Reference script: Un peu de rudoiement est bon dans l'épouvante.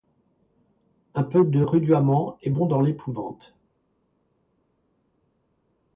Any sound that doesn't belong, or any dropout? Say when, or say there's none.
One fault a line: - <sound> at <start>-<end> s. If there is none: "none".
none